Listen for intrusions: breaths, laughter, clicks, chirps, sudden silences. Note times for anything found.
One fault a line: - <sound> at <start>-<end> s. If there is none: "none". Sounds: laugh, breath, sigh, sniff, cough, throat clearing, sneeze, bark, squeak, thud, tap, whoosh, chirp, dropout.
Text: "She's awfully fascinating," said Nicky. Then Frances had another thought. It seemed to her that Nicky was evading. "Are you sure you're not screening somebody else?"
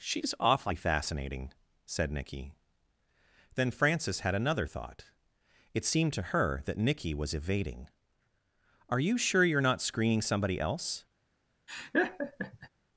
- laugh at 11.7-12.7 s